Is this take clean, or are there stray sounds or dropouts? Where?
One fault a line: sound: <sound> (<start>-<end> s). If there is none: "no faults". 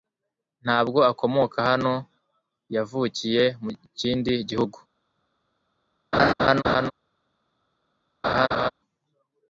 sound: laugh (6.1-6.9 s)
sound: laugh (8.2-8.7 s)